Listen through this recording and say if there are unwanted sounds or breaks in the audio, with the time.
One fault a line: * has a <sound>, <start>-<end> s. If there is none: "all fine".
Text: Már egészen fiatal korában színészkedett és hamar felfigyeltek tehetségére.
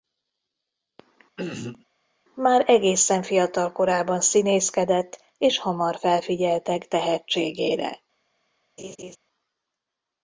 * has a throat clearing, 1.4-1.8 s
* has a laugh, 8.8-9.2 s